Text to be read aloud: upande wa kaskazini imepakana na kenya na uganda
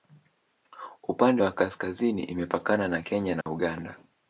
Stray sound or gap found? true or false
true